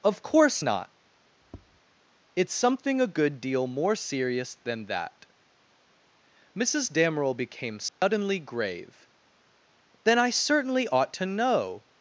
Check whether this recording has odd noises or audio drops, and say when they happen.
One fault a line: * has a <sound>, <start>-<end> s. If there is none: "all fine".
* has a tap, 1.4-1.8 s
* has a dropout, 7.9-8.0 s